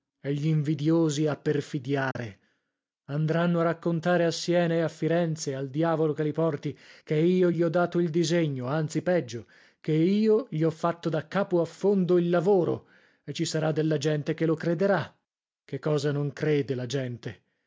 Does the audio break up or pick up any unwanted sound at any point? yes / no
yes